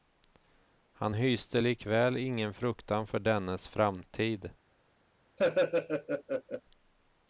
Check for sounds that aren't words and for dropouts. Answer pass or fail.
fail